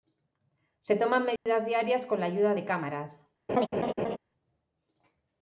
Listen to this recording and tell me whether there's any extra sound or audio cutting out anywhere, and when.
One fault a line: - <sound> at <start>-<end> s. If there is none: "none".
- dropout at 1.4-1.5 s
- laugh at 3.5-4.2 s